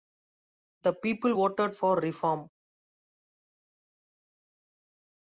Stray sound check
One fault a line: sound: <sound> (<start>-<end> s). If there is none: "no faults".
no faults